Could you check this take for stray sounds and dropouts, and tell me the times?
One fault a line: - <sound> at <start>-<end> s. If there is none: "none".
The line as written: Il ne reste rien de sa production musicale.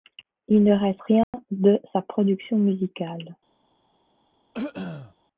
- dropout at 1.2-1.3 s
- throat clearing at 4.5-5.1 s